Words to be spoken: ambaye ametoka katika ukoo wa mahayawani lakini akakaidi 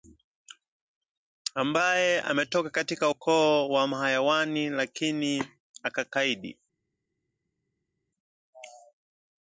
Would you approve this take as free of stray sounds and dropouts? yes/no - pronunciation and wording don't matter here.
yes